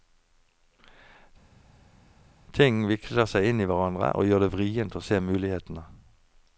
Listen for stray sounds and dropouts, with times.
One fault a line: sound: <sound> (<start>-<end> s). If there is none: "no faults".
no faults